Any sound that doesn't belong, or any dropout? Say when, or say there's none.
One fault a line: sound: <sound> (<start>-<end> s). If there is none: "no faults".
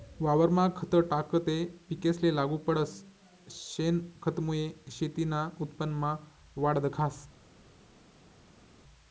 no faults